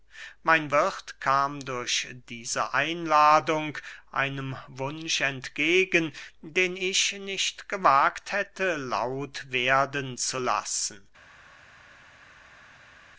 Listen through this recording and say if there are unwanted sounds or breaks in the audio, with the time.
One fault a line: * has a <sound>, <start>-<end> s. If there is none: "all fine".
all fine